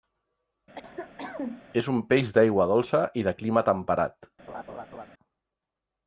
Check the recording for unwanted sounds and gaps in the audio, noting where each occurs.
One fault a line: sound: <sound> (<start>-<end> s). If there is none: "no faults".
sound: cough (0.8-1.7 s)
sound: laugh (4.5-5.1 s)